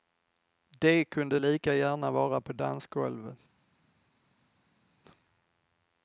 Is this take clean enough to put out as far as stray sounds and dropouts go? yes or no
yes